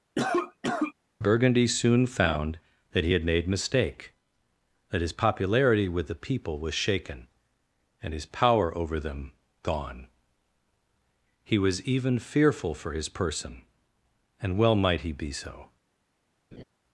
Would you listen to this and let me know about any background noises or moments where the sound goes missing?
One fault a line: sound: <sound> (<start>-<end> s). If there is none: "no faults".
sound: cough (0.2-0.9 s)
sound: laugh (16.5-16.6 s)